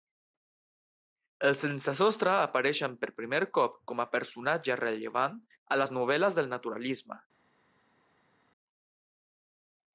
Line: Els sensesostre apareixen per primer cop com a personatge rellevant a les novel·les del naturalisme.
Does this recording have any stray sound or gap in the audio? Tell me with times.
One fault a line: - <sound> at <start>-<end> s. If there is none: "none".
none